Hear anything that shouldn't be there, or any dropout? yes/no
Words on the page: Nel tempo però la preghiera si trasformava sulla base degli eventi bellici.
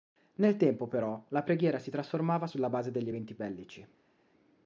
no